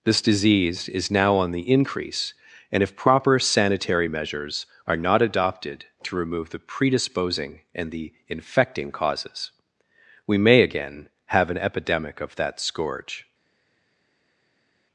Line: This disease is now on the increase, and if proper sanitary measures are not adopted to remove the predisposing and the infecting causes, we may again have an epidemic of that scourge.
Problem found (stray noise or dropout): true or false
false